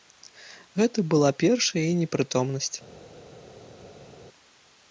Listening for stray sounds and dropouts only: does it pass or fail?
pass